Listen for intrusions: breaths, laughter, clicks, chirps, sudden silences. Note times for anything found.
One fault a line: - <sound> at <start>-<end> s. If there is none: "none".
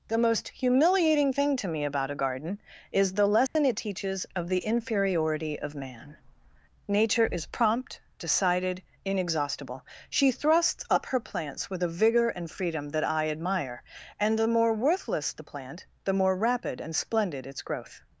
- dropout at 3.5-3.6 s